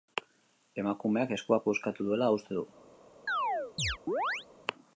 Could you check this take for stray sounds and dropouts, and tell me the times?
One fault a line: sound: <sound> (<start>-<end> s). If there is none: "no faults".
sound: chirp (3.3-4.5 s)